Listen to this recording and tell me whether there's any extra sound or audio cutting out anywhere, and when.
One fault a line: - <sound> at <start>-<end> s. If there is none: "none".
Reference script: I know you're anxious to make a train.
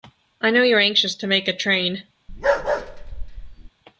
- bark at 2.3-3.7 s